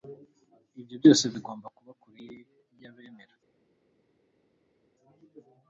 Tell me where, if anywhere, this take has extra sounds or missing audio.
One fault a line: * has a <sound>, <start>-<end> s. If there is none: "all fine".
all fine